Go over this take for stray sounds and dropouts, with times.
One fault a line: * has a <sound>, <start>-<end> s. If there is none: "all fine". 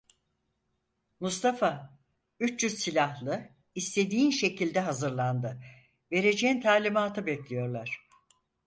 all fine